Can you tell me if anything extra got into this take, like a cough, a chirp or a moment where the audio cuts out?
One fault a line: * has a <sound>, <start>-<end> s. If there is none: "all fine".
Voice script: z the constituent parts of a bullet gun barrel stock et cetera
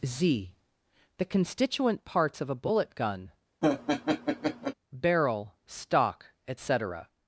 * has a laugh, 3.6-4.7 s